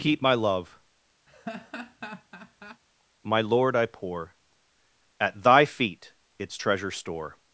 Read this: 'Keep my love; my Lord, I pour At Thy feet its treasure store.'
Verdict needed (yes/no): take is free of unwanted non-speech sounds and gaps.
no